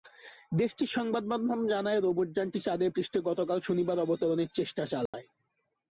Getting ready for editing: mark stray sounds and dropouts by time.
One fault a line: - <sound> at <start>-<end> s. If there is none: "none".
- dropout at 5.1-5.1 s